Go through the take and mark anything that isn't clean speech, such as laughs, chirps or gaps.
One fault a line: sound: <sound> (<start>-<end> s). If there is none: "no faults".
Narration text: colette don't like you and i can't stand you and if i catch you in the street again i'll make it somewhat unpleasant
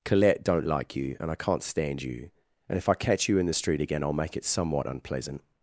no faults